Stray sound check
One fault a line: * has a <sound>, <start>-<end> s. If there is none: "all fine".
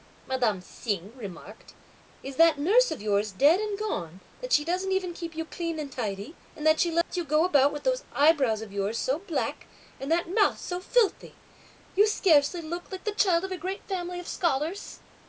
* has a dropout, 7.0-7.1 s